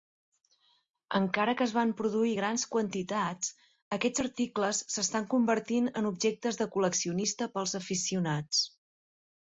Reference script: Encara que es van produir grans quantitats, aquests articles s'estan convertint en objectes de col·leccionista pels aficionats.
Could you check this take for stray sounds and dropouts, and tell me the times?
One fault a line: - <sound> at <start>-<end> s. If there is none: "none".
none